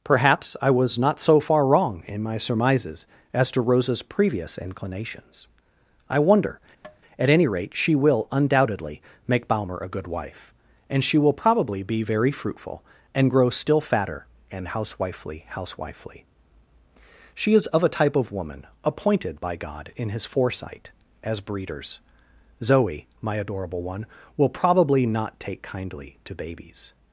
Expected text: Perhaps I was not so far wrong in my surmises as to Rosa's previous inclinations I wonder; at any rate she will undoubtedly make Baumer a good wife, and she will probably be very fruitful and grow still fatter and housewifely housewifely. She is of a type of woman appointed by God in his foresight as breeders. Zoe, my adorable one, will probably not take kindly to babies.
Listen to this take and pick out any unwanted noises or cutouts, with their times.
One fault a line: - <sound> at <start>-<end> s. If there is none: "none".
- tap at 6.8-7.0 s